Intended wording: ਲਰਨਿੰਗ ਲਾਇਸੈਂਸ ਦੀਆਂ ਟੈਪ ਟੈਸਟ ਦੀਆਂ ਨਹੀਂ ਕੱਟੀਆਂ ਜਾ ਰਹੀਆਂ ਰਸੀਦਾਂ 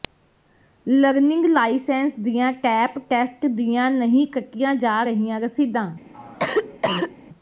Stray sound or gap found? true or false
true